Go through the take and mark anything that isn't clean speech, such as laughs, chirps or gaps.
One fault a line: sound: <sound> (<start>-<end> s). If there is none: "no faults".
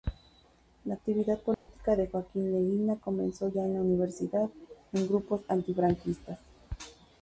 sound: dropout (1.5-1.7 s)